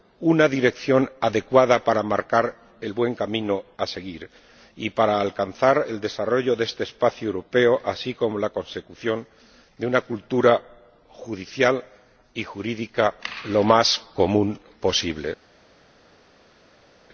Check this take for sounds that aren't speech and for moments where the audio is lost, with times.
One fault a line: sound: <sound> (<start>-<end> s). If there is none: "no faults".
no faults